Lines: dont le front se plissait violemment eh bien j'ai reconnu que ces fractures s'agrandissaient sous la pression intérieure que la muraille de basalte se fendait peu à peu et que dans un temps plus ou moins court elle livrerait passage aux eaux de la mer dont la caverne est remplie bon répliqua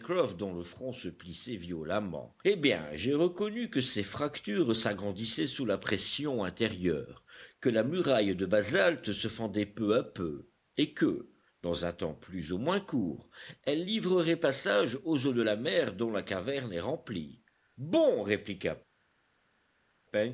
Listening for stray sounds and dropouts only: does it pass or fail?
pass